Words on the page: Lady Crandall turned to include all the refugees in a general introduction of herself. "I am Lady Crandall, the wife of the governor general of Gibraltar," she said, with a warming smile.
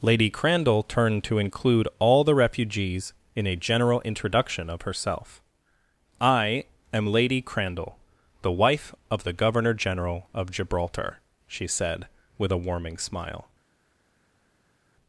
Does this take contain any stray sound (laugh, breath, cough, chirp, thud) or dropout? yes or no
no